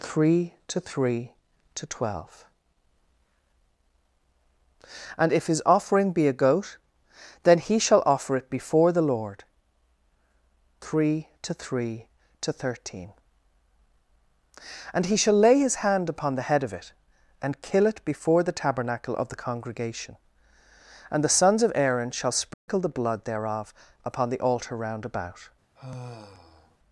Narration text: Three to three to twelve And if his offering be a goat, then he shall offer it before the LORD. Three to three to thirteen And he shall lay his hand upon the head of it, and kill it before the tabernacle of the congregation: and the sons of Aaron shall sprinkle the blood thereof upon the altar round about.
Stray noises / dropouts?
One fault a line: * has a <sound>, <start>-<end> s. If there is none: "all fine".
* has a dropout, 22.5-22.7 s
* has a sigh, 25.8-26.8 s